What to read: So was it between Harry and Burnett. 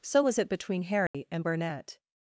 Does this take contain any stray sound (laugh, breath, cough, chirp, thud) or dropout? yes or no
yes